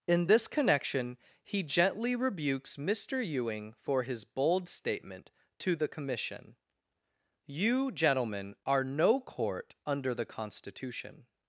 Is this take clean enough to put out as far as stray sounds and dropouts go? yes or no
yes